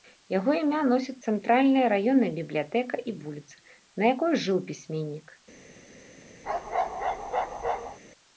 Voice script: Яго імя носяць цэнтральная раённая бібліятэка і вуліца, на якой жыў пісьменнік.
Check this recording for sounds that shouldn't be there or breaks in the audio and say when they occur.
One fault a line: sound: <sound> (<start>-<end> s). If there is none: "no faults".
sound: bark (6.4-8.0 s)